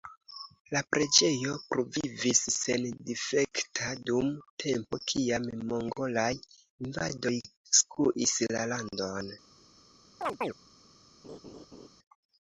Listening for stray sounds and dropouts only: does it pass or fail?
fail